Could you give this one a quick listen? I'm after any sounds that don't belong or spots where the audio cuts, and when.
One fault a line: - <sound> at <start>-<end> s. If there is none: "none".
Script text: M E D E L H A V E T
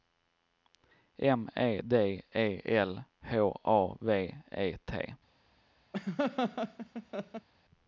- laugh at 5.9-7.5 s